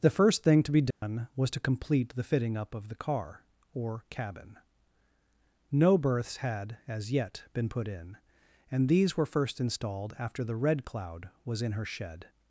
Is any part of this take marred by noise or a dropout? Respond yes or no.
yes